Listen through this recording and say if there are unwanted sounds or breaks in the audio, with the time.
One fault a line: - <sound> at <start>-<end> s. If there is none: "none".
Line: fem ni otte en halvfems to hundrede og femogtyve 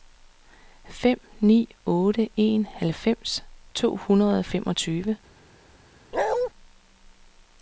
- bark at 6.1-6.5 s